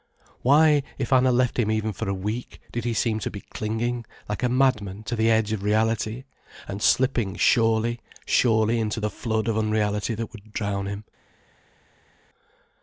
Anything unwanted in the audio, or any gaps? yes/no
no